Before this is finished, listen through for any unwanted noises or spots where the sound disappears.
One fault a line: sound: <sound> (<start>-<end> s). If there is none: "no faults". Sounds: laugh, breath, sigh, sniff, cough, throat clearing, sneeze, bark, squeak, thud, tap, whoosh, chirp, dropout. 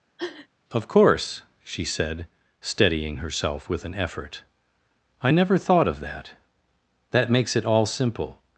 sound: sniff (0.2-0.5 s)